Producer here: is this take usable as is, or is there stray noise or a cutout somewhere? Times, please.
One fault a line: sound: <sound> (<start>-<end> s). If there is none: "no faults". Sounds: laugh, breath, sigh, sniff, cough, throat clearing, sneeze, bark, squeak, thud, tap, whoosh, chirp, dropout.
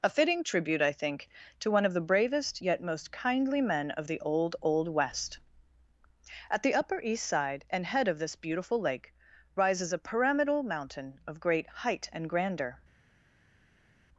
no faults